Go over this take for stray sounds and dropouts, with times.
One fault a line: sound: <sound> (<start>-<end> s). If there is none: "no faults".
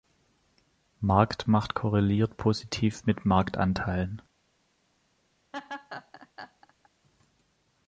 sound: laugh (5.5-6.9 s)